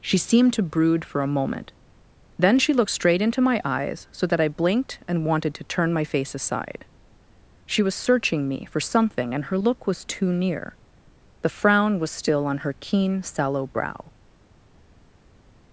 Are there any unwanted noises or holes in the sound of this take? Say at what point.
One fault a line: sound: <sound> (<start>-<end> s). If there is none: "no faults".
no faults